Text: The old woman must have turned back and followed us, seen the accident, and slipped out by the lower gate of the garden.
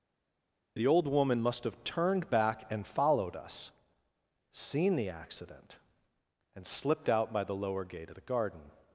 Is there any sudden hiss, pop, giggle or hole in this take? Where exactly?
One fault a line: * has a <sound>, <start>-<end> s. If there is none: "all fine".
all fine